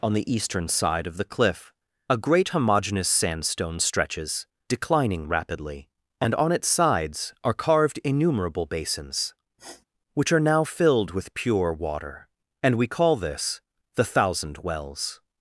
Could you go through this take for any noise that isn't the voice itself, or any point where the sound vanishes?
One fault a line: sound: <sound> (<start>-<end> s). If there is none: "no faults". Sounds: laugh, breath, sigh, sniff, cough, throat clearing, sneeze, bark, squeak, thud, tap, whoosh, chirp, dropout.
sound: sniff (9.6-9.8 s)